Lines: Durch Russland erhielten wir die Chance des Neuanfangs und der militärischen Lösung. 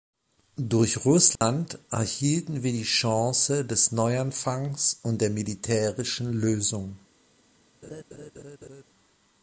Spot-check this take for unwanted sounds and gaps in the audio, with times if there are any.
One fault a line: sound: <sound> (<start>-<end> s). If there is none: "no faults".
sound: dropout (1.4-1.4 s)
sound: laugh (7.8-8.8 s)